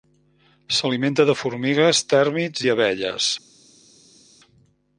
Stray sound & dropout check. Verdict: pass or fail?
pass